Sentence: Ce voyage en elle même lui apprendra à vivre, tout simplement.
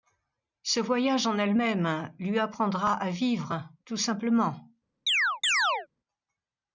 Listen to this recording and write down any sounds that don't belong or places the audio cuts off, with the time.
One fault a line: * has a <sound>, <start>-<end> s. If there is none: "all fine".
* has a chirp, 5.1-5.9 s